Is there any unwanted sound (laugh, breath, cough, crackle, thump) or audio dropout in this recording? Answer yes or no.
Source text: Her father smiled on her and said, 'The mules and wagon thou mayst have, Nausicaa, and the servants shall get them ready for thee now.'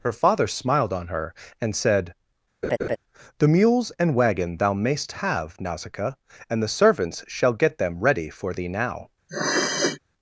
yes